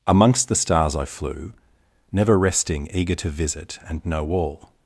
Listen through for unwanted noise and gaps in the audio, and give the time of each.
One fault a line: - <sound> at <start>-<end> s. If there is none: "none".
none